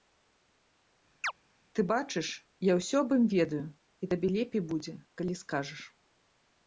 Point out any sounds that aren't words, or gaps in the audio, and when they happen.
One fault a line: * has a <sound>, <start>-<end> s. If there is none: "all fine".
* has a chirp, 1.2-1.3 s